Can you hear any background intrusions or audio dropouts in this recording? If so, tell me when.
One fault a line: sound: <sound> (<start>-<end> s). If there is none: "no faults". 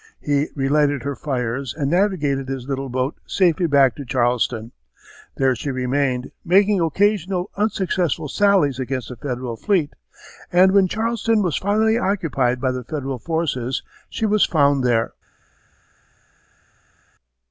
no faults